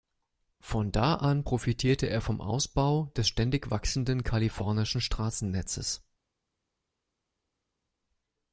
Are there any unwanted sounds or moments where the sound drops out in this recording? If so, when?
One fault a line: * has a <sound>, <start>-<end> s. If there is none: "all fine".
all fine